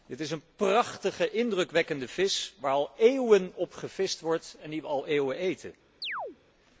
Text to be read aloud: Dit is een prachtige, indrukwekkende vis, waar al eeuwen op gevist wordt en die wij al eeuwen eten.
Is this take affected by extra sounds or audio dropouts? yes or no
yes